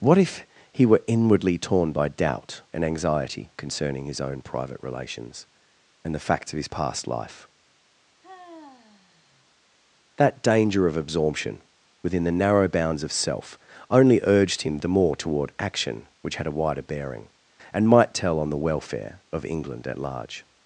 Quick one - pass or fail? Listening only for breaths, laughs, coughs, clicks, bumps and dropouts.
fail